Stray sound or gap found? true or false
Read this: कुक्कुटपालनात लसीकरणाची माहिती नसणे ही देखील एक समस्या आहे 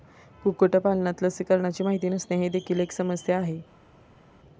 false